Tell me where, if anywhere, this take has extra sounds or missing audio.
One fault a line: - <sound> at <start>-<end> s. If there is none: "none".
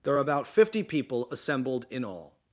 none